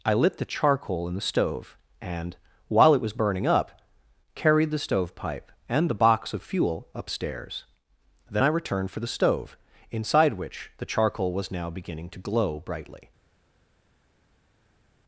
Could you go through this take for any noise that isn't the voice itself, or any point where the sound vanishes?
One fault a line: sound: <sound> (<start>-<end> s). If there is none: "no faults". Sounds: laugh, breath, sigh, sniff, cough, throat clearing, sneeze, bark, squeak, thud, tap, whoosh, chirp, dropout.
no faults